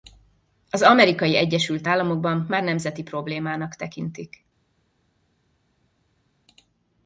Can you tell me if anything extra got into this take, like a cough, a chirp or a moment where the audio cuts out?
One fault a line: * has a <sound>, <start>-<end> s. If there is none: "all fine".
all fine